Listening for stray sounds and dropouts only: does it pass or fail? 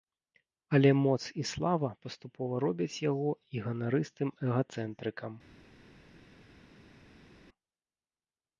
pass